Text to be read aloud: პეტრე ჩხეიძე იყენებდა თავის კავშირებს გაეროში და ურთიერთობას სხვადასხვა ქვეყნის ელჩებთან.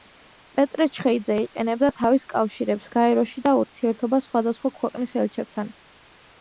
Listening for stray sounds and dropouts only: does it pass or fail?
pass